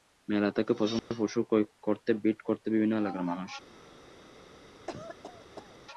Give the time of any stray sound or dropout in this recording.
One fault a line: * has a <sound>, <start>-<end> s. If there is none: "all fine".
* has a dropout, 1.0-1.1 s
* has a cough, 4.9-5.8 s